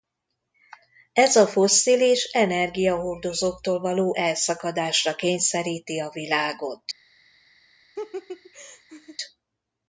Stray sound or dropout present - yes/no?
yes